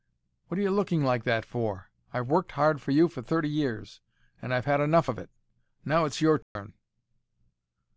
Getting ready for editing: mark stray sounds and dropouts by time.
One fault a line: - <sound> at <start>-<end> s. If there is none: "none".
- dropout at 6.4-6.6 s